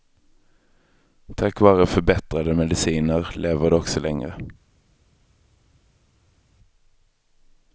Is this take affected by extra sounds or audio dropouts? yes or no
no